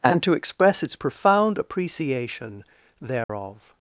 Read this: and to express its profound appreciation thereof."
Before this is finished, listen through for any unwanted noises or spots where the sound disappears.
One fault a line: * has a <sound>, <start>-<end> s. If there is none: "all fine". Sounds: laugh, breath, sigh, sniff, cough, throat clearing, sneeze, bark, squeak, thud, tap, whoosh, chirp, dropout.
* has a dropout, 3.2-3.3 s